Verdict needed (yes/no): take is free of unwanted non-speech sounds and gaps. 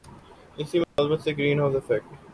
no